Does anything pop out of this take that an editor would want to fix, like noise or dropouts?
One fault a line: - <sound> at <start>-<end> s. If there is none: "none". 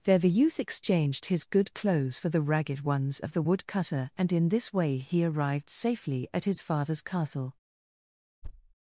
- thud at 8.4-8.7 s